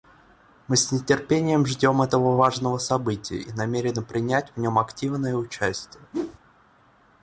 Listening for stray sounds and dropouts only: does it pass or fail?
fail